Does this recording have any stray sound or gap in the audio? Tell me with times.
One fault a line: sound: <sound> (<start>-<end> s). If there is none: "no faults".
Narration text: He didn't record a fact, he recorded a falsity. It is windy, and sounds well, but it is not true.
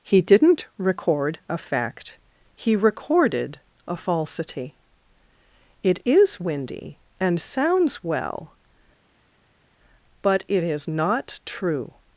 no faults